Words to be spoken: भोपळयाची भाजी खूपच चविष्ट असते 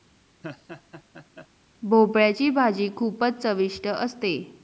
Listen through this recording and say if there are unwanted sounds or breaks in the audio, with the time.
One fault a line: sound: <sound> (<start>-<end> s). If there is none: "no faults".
sound: laugh (0.4-1.5 s)